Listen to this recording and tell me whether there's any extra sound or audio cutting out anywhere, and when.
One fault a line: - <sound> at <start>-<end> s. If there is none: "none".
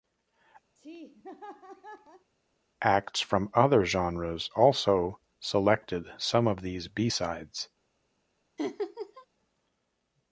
- laugh at 0.8-2.3 s
- laugh at 8.6-9.3 s